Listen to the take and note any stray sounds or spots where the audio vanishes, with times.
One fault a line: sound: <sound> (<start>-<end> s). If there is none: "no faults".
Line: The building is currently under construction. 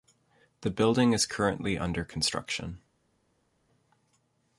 no faults